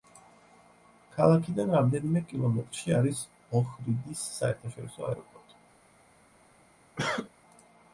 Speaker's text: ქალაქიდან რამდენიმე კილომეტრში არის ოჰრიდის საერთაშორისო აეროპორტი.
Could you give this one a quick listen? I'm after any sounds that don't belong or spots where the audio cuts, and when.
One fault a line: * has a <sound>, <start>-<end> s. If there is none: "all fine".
* has a cough, 7.0-7.3 s